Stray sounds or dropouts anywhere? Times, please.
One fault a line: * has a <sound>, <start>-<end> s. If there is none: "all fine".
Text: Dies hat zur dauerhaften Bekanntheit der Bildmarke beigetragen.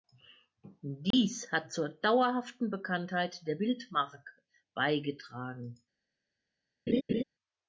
* has a dropout, 1.1-1.1 s
* has a laugh, 6.9-7.2 s